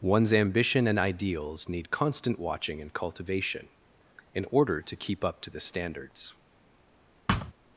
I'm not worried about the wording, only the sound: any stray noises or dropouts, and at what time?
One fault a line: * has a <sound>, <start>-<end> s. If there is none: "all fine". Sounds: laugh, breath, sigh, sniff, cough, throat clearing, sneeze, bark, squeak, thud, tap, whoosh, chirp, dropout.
* has a thud, 7.3-7.5 s